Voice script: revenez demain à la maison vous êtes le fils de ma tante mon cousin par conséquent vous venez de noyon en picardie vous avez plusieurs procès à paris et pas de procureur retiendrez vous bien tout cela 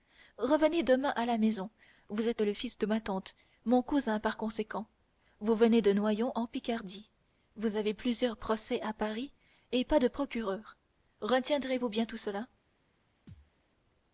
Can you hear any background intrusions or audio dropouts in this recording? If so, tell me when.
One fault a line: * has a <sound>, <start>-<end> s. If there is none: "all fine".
* has a thud, 13.3-13.5 s